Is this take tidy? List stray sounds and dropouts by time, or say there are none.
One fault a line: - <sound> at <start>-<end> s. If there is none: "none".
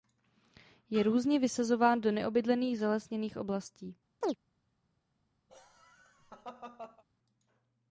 - chirp at 4.2-4.4 s
- laugh at 5.5-7.0 s